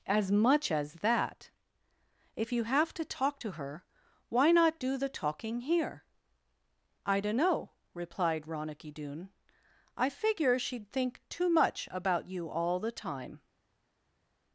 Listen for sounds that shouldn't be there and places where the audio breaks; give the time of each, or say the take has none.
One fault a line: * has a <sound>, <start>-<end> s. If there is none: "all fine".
all fine